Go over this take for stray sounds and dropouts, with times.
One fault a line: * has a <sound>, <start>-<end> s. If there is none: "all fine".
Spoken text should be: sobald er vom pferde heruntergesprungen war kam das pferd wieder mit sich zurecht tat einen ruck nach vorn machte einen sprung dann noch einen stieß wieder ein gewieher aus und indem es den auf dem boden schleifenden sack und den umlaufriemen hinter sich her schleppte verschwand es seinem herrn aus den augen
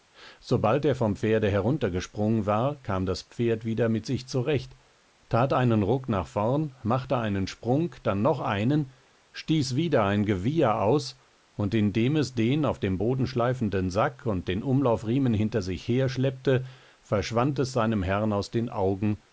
all fine